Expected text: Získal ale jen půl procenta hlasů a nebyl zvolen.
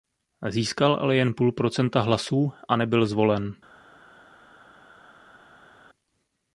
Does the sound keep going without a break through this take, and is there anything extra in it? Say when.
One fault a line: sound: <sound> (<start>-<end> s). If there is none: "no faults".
no faults